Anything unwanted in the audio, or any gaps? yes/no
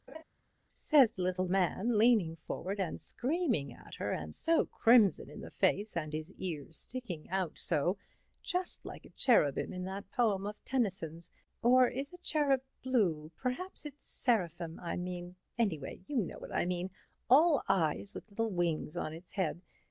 yes